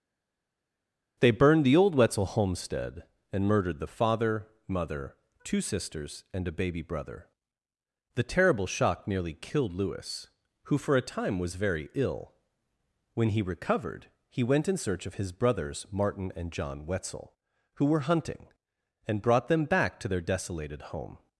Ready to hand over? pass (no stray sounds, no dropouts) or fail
pass